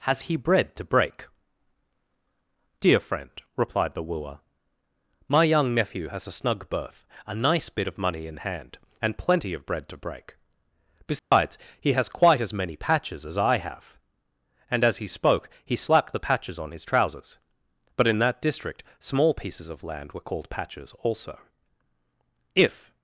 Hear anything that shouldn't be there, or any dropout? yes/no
yes